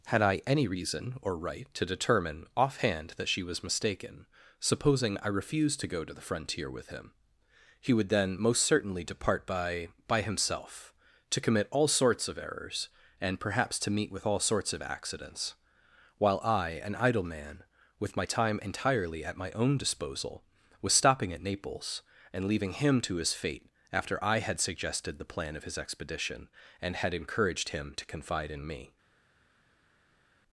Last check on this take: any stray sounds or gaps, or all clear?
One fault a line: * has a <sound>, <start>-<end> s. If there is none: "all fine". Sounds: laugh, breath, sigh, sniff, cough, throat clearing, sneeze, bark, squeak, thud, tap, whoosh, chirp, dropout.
all fine